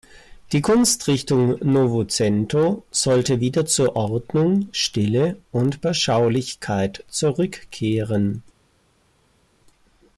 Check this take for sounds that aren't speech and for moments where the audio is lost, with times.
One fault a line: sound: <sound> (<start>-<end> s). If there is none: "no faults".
no faults